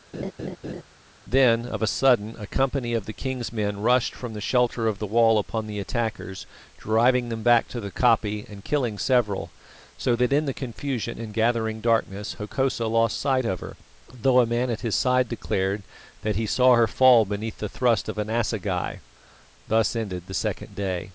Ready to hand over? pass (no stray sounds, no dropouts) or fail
fail